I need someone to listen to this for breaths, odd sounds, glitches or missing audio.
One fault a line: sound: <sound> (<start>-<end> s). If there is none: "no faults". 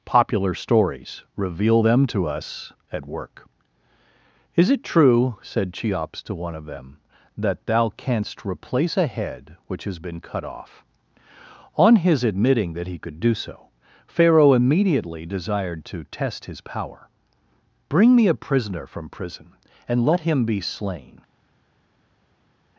no faults